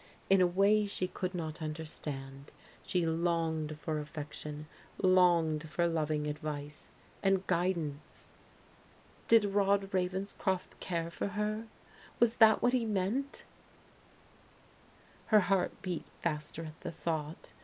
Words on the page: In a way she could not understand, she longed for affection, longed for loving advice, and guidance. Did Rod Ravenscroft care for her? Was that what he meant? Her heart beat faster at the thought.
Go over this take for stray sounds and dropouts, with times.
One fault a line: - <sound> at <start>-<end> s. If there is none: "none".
none